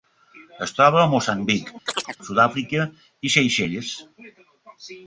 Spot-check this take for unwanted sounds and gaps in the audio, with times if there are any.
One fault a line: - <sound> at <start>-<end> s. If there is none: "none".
- chirp at 1.9-2.2 s